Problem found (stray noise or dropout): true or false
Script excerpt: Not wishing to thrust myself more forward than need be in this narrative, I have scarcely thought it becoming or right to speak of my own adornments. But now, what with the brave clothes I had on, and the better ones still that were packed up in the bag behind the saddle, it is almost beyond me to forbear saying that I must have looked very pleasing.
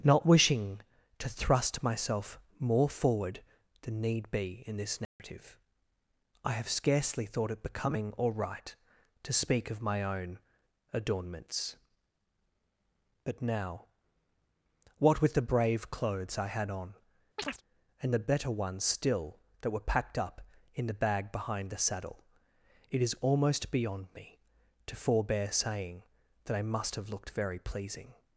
true